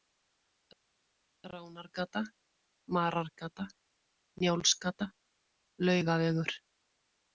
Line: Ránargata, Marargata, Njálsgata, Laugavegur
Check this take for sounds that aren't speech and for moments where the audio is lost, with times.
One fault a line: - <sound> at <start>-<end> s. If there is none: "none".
none